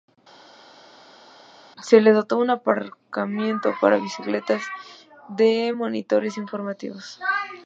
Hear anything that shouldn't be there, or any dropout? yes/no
no